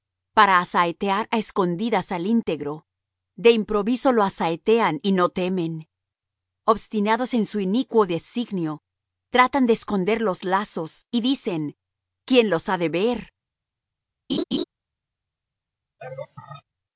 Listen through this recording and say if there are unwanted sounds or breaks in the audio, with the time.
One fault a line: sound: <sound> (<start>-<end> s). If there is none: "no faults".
sound: laugh (14.3-14.6 s)
sound: laugh (16.0-16.6 s)